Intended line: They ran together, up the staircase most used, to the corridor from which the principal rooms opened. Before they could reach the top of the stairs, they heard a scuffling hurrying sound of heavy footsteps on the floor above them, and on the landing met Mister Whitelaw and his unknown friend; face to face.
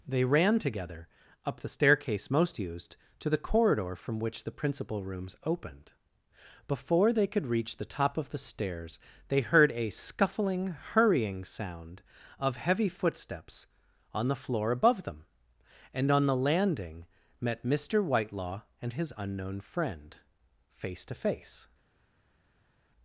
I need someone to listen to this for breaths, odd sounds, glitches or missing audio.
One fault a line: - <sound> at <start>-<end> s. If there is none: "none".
none